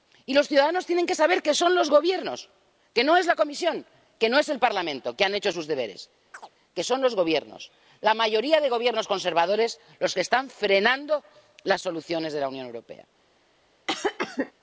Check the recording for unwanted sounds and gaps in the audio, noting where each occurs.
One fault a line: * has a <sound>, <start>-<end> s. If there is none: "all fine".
* has a chirp, 6.3-6.5 s
* has a cough, 13.9-14.5 s